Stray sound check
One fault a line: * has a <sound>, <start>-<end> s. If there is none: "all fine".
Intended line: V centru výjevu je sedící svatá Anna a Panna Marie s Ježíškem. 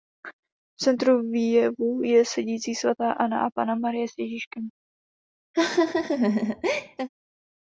* has a laugh, 5.5-7.1 s